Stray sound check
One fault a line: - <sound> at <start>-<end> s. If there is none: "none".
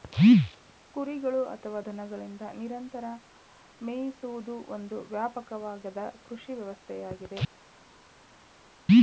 none